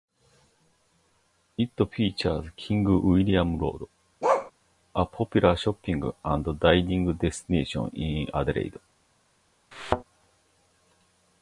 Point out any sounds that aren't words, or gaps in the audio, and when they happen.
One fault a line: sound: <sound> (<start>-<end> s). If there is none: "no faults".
sound: bark (4.2-4.5 s)
sound: thud (9.7-10.0 s)